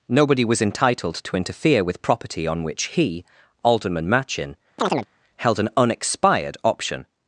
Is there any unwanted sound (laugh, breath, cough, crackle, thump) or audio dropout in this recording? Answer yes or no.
yes